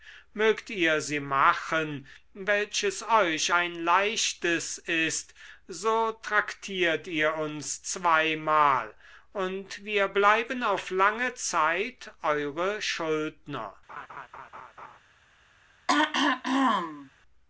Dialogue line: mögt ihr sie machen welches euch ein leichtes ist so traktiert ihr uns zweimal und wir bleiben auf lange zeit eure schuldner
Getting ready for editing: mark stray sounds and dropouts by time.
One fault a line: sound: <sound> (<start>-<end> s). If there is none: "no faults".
sound: laugh (13.9-15.0 s)
sound: throat clearing (15.9-17.1 s)